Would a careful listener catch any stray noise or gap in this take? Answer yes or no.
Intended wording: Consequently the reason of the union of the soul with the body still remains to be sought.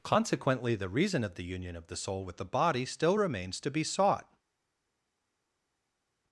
no